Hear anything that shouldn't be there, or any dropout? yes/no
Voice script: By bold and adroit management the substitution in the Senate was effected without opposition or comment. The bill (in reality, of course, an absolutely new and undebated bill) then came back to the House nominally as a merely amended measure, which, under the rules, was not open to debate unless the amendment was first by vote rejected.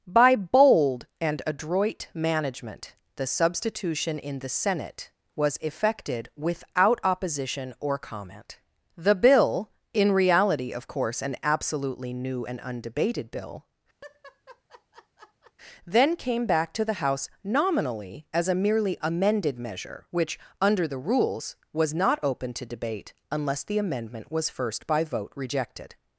yes